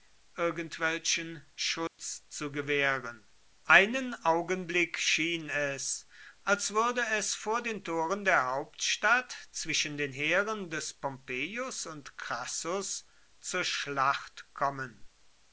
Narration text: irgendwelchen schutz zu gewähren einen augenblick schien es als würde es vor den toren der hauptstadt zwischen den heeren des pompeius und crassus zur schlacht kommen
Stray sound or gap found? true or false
true